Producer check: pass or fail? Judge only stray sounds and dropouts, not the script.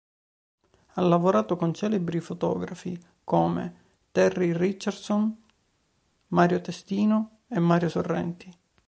pass